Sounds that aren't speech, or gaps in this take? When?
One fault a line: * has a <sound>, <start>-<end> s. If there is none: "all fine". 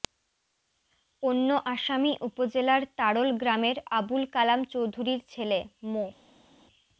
all fine